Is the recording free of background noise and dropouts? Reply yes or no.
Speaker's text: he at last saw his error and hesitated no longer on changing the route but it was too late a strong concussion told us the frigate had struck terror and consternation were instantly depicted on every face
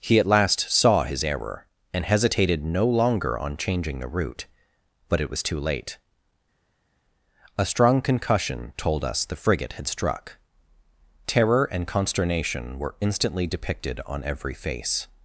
yes